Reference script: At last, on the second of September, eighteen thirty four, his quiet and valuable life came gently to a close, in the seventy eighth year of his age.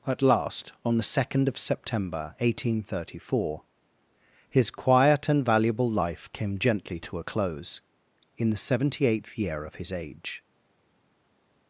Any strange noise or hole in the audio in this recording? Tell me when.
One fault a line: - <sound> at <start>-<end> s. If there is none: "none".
none